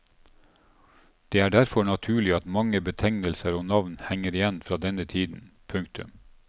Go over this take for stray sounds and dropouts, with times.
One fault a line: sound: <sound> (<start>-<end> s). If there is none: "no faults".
no faults